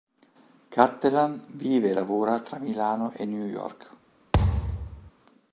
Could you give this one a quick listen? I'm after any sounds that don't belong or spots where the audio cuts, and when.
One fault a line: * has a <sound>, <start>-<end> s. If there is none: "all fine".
* has a thud, 4.3-5.1 s